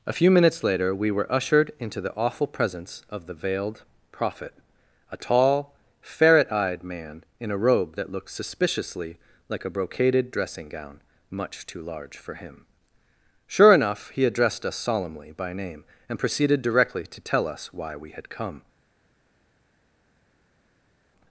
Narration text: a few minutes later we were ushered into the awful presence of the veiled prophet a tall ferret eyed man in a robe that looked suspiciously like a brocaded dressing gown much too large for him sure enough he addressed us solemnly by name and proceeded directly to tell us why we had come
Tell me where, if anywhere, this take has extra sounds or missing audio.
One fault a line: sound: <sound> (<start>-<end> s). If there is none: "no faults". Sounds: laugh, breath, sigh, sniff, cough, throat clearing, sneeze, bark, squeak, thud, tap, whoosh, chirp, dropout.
no faults